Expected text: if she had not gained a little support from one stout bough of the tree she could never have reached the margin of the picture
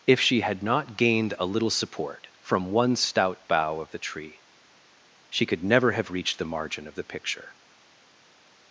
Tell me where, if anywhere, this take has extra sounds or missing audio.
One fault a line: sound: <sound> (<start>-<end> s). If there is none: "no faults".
no faults